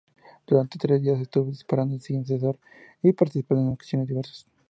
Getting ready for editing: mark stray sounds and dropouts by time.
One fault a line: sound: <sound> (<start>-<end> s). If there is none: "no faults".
no faults